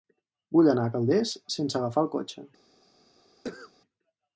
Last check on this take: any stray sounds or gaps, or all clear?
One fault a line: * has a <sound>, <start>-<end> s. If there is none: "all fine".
* has a cough, 3.4-3.7 s